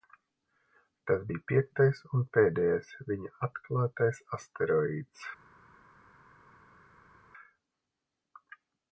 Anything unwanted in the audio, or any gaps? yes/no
no